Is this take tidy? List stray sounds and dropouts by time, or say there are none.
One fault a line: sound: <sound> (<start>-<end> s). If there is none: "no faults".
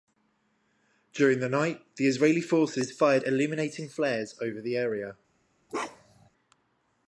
sound: bark (5.7-6.3 s)